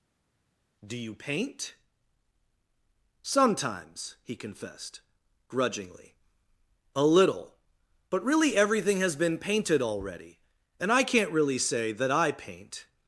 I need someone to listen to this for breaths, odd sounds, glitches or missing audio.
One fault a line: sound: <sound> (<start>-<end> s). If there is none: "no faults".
no faults